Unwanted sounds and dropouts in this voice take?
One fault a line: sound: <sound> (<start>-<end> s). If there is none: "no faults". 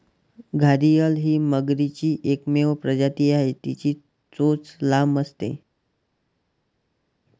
no faults